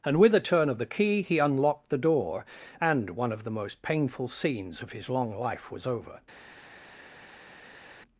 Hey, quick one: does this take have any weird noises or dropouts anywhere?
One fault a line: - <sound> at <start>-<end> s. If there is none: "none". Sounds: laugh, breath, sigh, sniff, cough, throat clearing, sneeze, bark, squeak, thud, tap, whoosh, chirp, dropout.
none